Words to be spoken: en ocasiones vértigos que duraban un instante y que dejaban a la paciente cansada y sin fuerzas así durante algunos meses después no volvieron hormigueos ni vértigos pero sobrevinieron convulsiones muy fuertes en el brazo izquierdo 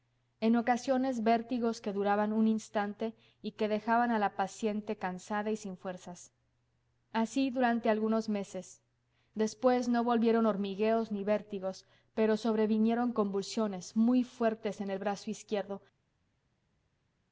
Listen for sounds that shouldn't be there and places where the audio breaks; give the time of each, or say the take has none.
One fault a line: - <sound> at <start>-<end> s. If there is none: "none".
none